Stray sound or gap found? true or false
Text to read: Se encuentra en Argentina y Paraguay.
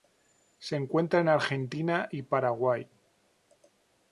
false